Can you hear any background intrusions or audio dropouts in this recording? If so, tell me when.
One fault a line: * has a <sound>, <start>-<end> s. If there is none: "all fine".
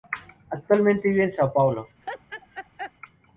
* has a laugh, 2.0-2.9 s